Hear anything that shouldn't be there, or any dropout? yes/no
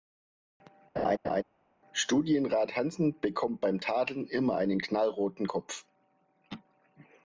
yes